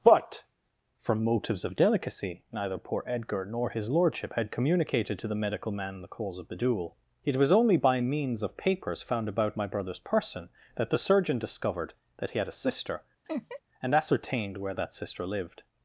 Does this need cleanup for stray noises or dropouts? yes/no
yes